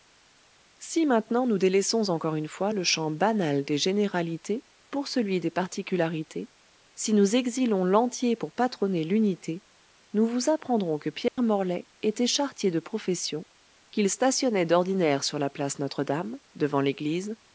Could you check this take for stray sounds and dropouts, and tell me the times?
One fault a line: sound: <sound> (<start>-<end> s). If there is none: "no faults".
sound: dropout (11.3-11.4 s)